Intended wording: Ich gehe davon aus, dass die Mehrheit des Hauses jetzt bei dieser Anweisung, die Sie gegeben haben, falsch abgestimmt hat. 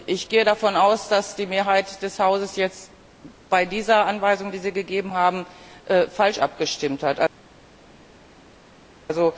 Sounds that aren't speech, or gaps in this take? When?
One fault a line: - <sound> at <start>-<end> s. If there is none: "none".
none